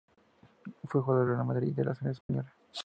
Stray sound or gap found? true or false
true